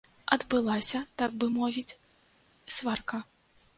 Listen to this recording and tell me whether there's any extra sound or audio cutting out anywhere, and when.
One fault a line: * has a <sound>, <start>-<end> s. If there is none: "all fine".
all fine